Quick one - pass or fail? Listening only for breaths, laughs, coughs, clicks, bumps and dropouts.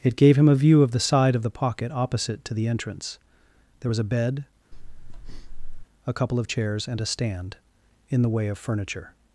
fail